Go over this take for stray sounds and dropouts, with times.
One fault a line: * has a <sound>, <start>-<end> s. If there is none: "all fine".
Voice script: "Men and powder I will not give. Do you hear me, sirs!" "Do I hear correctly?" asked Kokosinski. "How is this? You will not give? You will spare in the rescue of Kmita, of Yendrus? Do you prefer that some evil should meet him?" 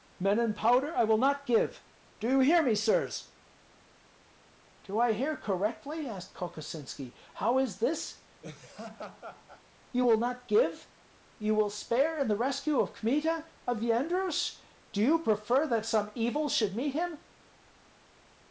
* has a laugh, 8.4-9.6 s